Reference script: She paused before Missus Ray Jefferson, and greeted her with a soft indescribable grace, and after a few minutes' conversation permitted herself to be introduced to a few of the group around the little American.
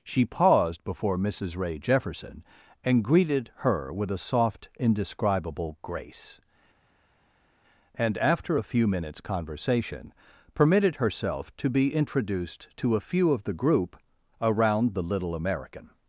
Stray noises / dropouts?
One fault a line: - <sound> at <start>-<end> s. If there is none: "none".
none